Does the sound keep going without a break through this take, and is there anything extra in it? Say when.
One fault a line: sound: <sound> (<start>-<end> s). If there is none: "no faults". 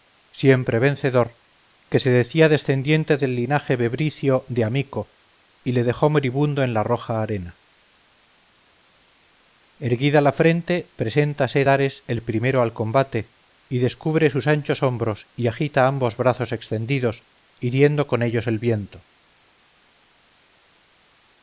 no faults